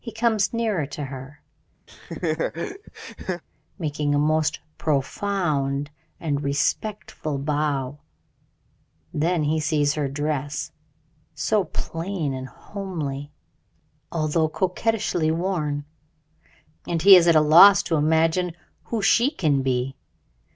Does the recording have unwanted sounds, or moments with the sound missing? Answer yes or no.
yes